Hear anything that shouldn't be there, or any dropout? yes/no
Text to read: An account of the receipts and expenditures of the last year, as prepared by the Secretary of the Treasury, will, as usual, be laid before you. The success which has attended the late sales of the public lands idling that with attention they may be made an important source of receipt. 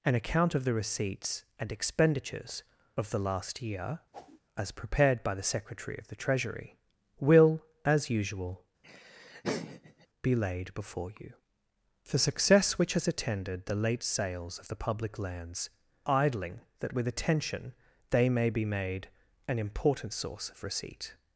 yes